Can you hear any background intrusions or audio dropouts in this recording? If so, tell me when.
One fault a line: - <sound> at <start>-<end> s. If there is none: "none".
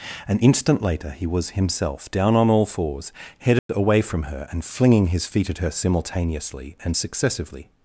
- dropout at 3.6-3.7 s